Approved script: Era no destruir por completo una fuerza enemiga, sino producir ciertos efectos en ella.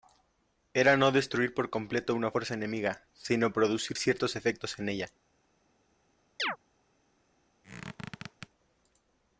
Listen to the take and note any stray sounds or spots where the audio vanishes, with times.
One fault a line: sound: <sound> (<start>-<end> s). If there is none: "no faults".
sound: chirp (6.4-6.6 s)
sound: squeak (7.6-8.5 s)